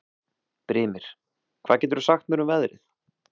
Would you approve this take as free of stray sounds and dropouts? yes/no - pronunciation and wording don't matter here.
yes